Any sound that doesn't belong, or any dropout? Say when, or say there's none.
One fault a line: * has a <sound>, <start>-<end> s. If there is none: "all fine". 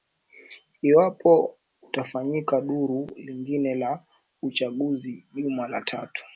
all fine